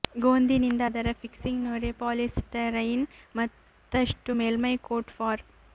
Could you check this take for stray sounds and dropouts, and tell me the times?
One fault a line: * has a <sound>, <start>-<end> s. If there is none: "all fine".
all fine